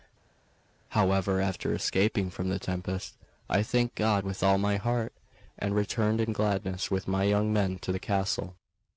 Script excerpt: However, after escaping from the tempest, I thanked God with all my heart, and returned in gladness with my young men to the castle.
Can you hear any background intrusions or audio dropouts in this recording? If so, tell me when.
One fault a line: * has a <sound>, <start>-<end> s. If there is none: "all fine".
all fine